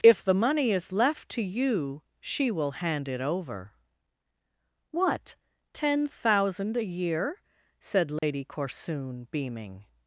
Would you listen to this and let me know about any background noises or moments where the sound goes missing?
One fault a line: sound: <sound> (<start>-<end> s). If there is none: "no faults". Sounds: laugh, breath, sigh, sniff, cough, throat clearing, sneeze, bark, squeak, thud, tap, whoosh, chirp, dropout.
sound: dropout (8.2-8.2 s)